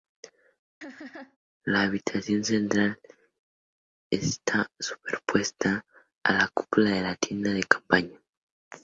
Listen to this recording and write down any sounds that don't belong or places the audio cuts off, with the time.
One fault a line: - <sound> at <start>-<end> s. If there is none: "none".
- laugh at 0.8-1.4 s